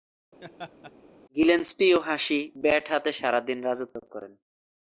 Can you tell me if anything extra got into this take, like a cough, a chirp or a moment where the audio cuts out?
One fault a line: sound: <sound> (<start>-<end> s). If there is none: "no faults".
sound: laugh (0.4-0.9 s)